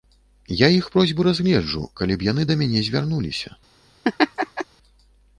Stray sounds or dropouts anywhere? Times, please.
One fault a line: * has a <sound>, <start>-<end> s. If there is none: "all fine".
* has a laugh, 4.0-4.7 s